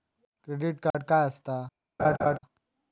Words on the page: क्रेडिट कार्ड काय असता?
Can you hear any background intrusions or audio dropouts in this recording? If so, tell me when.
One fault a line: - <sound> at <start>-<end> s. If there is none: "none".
- dropout at 0.9-0.9 s
- laugh at 2.0-2.4 s